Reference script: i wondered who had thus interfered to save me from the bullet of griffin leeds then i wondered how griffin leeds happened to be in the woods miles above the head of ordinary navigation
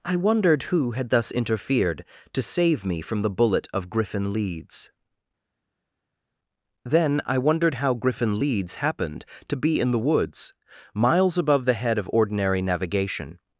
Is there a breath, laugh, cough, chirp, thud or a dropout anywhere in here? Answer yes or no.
no